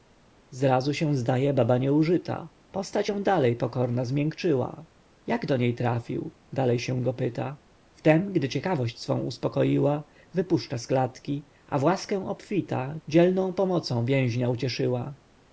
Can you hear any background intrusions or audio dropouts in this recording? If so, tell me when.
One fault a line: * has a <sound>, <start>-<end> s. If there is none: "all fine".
all fine